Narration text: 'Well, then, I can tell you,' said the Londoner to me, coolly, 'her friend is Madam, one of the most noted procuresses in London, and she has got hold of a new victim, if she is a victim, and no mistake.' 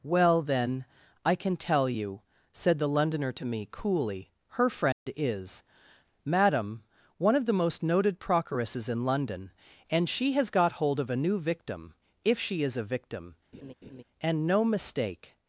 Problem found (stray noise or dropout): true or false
true